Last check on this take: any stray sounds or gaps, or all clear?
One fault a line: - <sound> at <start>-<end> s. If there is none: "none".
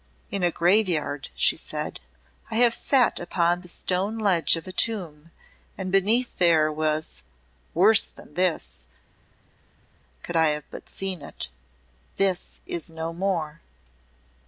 none